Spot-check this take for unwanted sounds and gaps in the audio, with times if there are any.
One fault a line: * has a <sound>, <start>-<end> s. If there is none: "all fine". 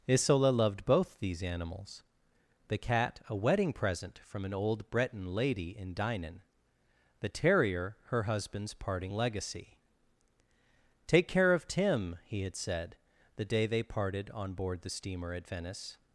all fine